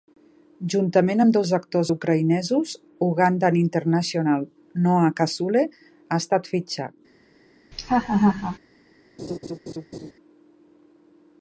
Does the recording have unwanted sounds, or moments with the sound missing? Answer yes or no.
yes